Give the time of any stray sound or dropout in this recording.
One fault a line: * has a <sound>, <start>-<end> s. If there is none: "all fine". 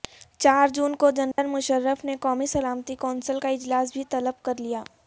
* has a dropout, 1.3-1.4 s